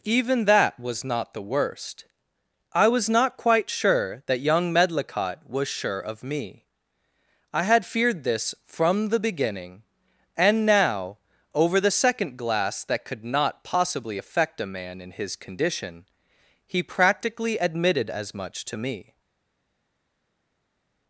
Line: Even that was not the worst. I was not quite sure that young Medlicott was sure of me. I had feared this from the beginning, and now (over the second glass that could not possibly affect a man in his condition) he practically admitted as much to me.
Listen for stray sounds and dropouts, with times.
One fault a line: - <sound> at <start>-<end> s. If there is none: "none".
none